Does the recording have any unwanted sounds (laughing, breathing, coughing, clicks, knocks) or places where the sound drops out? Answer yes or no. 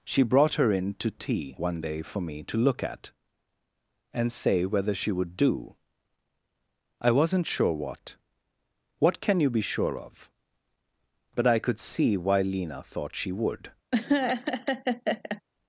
yes